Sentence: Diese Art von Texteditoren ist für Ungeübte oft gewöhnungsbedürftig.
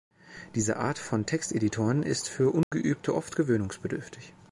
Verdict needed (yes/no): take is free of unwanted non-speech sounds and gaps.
no